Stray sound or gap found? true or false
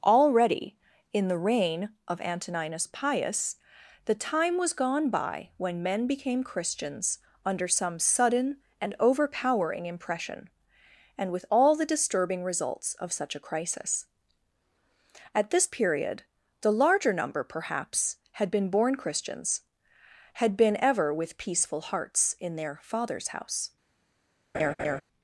true